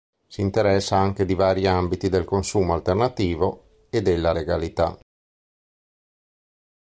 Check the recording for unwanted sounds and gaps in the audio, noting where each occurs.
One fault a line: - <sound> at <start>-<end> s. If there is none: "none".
none